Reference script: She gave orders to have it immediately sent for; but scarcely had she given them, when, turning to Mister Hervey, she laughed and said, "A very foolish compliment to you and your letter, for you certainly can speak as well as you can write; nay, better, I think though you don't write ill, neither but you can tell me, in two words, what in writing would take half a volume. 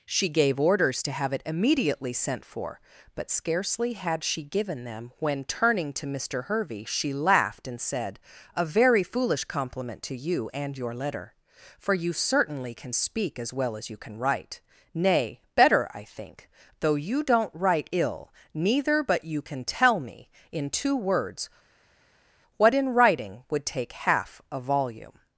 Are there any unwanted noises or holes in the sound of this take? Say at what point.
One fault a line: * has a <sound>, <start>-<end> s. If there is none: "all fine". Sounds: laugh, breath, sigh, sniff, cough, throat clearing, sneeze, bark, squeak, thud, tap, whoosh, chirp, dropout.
all fine